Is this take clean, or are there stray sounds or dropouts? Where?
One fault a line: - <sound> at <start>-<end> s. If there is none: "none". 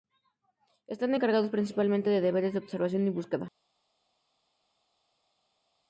none